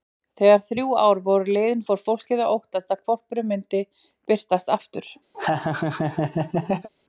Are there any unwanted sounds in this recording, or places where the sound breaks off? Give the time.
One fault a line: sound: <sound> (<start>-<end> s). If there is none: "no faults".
sound: laugh (5.3-6.9 s)